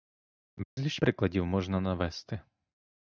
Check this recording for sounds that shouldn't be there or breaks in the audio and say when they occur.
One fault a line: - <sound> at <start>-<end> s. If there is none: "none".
- dropout at 0.6-0.8 s